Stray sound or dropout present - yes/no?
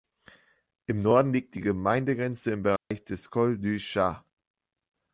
yes